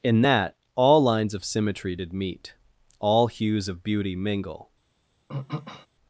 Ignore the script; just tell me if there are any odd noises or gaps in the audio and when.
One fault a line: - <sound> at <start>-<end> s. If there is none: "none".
- throat clearing at 5.3-5.9 s